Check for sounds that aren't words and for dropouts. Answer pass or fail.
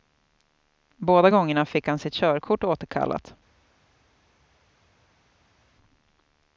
pass